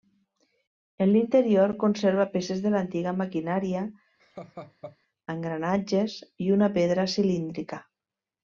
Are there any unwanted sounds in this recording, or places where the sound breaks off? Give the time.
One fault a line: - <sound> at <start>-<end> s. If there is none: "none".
- laugh at 4.2-5.0 s